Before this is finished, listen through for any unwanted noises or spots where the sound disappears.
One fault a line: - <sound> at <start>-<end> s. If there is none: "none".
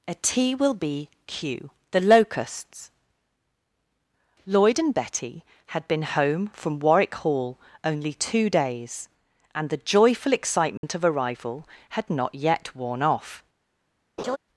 - dropout at 10.8-10.8 s
- laugh at 14.2-14.4 s